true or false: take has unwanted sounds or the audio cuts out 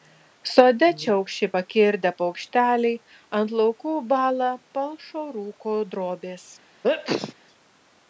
true